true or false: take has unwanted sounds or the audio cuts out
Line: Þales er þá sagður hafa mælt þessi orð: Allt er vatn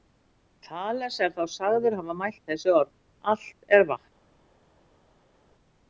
false